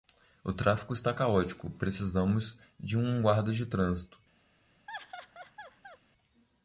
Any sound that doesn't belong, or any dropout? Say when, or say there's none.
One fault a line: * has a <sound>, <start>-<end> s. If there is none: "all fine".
* has a laugh, 4.9-6.0 s